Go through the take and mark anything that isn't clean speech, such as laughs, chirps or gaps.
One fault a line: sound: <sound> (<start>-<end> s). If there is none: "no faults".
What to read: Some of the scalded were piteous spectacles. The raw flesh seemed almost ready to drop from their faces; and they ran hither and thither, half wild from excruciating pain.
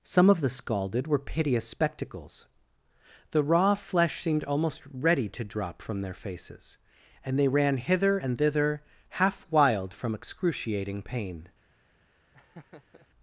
sound: laugh (12.3-13.1 s)